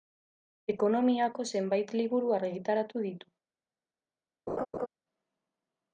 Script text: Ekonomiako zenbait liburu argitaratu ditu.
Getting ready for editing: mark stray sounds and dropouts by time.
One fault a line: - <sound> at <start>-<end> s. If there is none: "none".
- laugh at 4.5-4.9 s